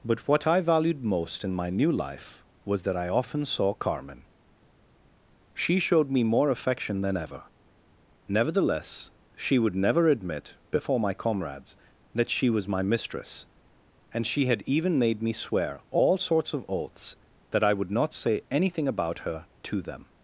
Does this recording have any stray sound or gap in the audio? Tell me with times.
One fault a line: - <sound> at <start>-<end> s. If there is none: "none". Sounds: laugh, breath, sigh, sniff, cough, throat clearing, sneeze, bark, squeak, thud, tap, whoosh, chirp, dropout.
none